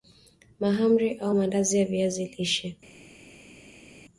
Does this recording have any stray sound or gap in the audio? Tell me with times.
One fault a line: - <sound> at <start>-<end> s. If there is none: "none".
none